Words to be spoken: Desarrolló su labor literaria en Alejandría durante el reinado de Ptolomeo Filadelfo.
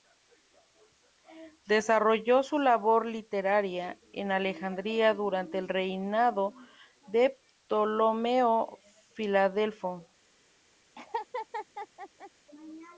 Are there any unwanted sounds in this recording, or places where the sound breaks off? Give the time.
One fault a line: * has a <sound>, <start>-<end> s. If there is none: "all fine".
* has a laugh, 11.0-12.3 s